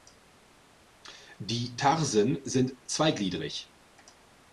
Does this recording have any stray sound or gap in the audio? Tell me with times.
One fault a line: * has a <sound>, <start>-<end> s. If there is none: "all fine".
all fine